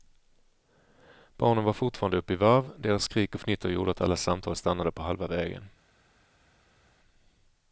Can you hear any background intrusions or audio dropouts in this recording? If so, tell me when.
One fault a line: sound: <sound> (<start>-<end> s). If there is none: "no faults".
no faults